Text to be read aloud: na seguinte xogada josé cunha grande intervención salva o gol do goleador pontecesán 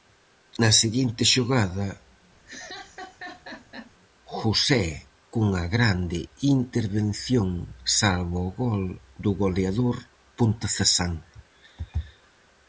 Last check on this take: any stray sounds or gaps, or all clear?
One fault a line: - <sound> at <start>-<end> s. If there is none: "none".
- laugh at 2.5-3.9 s